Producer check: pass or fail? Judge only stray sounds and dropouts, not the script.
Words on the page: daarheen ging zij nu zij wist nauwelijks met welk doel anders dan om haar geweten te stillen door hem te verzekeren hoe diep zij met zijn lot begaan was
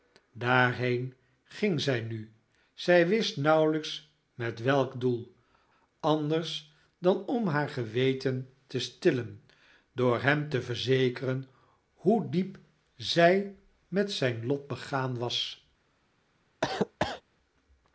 fail